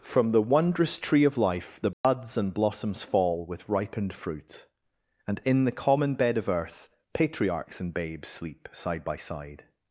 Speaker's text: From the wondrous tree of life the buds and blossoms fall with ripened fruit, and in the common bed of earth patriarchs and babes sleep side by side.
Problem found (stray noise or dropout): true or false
true